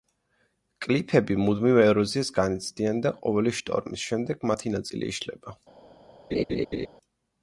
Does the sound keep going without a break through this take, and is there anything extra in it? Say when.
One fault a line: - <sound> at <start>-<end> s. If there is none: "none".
- laugh at 6.3-6.9 s